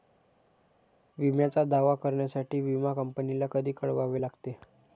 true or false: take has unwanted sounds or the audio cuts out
false